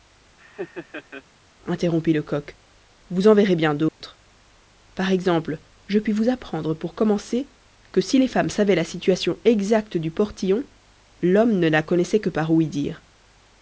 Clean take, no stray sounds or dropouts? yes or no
no